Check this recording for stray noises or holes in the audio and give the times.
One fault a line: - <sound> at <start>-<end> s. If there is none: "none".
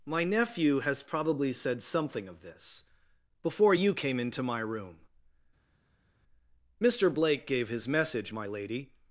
none